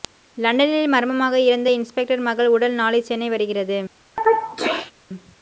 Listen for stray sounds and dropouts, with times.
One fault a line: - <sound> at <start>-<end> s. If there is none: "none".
- sneeze at 4.2-4.9 s